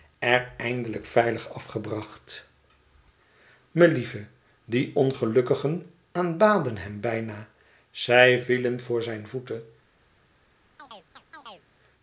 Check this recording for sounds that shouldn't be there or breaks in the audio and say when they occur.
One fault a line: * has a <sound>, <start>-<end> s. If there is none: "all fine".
* has a chirp, 10.8-11.7 s